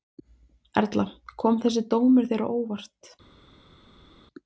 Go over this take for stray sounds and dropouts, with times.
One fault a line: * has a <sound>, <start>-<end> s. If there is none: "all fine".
all fine